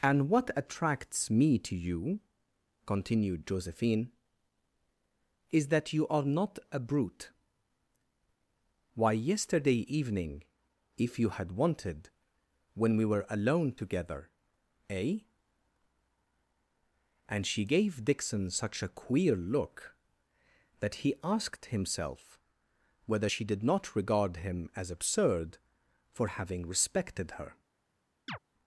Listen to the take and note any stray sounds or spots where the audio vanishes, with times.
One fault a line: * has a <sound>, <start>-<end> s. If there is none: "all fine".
* has a chirp, 28.3-28.4 s